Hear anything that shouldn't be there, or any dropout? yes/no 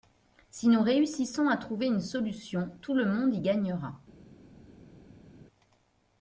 no